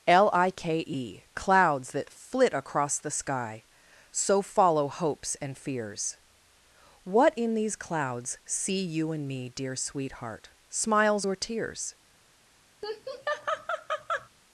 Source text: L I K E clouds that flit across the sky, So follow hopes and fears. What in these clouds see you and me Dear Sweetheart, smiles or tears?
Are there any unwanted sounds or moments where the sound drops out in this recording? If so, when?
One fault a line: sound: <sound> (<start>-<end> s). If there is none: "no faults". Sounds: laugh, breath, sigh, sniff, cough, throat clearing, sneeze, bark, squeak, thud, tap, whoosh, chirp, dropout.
sound: laugh (12.8-14.3 s)